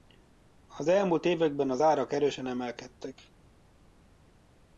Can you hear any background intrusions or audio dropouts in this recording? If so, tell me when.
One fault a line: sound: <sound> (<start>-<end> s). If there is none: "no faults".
no faults